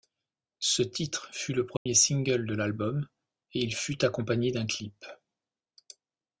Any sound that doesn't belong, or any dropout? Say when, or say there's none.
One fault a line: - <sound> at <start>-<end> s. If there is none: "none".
- dropout at 1.8-1.9 s